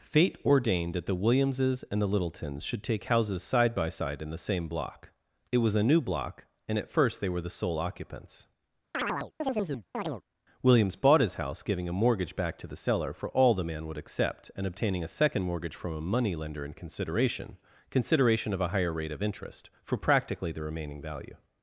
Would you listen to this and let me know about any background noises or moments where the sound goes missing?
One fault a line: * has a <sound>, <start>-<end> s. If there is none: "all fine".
* has a chirp, 8.9-10.2 s